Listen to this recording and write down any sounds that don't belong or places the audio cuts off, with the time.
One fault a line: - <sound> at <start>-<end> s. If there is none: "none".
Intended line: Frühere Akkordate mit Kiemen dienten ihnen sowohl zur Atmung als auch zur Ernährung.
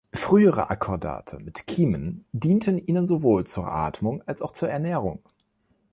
none